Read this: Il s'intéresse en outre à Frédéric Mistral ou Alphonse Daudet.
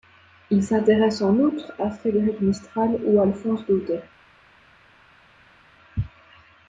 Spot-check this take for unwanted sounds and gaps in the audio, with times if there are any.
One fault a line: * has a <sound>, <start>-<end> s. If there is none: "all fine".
all fine